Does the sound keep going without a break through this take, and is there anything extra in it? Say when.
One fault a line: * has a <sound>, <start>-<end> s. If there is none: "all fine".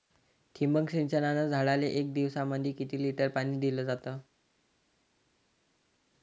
all fine